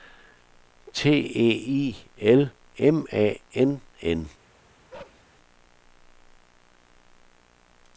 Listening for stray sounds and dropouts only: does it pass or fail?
fail